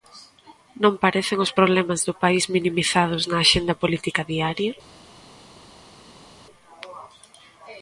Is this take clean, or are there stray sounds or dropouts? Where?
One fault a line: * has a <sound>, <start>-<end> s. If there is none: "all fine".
all fine